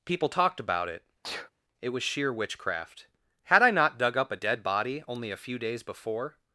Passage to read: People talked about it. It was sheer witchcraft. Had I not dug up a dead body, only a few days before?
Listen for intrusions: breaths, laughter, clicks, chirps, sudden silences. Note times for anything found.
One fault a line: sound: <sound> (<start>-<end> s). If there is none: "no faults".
sound: sneeze (1.2-1.5 s)